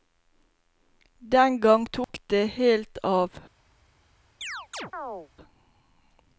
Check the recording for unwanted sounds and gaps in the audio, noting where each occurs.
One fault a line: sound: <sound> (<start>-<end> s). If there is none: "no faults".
sound: dropout (2.0-2.1 s)
sound: chirp (4.4-5.3 s)